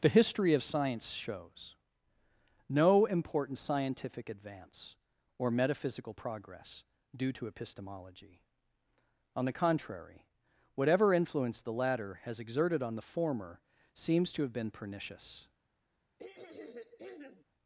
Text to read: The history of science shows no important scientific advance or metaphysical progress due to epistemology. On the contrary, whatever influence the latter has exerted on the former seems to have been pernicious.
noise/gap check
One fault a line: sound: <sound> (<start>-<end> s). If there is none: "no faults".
sound: throat clearing (16.2-17.4 s)